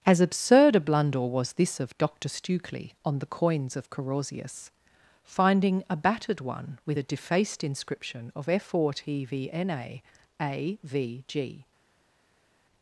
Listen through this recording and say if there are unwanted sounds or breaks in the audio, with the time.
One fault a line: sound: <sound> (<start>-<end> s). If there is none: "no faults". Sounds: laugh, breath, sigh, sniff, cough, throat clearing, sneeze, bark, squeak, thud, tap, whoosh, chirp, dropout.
no faults